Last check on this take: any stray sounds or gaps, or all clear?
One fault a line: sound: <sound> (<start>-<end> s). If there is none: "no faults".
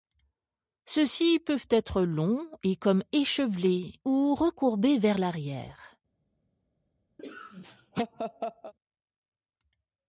sound: laugh (7.2-8.7 s)